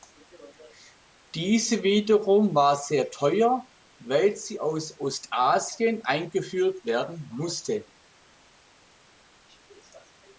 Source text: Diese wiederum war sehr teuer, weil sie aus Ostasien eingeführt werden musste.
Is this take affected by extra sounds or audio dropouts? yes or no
no